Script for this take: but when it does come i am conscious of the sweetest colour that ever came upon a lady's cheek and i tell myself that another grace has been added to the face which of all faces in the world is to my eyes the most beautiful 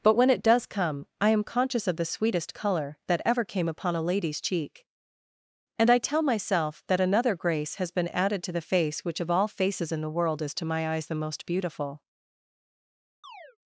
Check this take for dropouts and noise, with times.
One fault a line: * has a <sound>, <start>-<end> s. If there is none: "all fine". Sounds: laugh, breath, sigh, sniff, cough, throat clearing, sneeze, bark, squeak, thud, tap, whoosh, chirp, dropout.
* has a chirp, 13.2-13.6 s